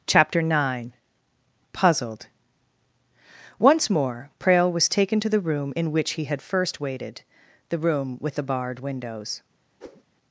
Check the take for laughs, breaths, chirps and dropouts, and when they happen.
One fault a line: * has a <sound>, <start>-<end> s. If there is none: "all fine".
* has a whoosh, 9.8-10.0 s